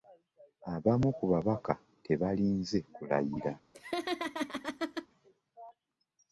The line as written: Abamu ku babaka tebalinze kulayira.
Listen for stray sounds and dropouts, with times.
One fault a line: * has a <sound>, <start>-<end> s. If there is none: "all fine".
* has a laugh, 3.7-5.1 s